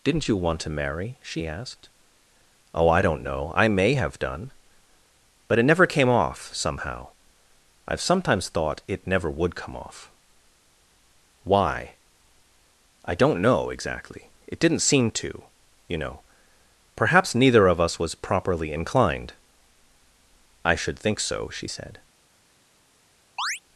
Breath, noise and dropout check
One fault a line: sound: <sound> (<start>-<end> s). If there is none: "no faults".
sound: chirp (23.4-23.6 s)